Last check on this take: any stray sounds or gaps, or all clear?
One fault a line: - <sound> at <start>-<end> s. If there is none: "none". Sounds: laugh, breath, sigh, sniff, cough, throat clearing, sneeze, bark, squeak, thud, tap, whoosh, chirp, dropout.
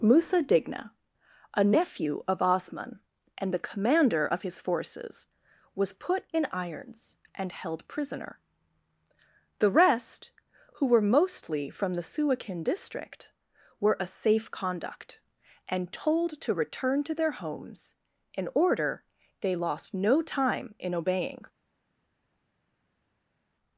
none